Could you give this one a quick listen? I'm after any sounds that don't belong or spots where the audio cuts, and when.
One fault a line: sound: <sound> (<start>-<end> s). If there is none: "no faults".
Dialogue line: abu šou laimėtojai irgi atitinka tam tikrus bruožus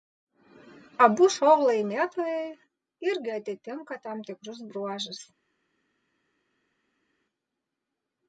no faults